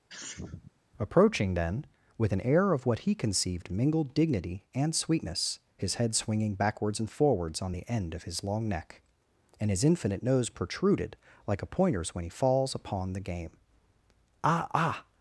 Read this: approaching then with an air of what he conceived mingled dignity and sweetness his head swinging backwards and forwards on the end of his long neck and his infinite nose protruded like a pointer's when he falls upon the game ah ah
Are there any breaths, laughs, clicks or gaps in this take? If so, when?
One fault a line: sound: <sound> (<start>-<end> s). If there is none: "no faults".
sound: sneeze (0.1-0.7 s)